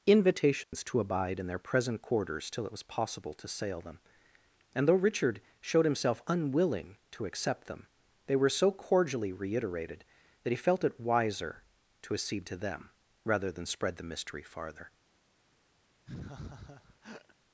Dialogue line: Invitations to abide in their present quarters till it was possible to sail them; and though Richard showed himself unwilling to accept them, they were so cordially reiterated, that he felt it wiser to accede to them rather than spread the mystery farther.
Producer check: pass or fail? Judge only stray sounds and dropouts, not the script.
fail